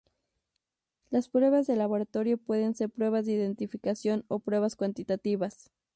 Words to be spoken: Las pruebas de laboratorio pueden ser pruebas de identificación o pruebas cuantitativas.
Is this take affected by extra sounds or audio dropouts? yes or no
no